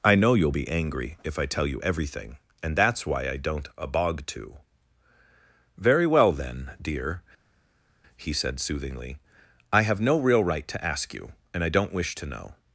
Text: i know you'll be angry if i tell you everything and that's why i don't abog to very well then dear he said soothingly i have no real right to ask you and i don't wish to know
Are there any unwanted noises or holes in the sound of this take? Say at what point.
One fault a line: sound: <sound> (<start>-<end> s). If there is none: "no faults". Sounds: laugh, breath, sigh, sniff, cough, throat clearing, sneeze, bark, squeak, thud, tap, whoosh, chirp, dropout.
no faults